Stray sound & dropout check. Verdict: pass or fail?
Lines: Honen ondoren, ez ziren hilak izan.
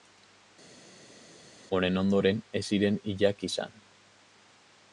pass